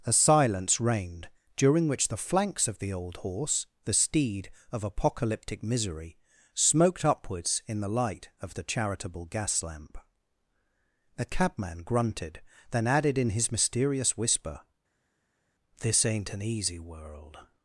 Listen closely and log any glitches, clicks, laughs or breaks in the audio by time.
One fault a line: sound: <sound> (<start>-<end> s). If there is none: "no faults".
no faults